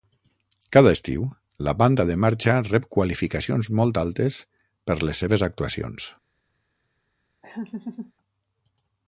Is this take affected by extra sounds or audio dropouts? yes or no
yes